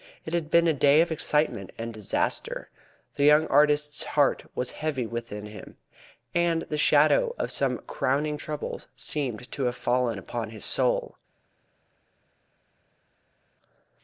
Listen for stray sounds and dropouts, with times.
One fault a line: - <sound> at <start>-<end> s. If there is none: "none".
none